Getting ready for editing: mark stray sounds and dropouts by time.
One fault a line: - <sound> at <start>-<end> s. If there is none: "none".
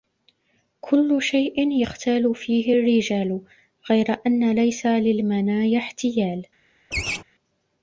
- laugh at 6.9-7.2 s